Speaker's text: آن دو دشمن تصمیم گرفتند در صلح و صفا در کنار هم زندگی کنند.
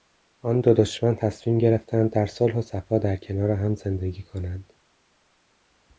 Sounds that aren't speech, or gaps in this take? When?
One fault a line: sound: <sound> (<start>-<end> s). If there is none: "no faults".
no faults